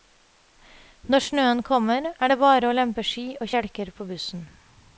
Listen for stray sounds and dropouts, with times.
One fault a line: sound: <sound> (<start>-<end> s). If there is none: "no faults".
no faults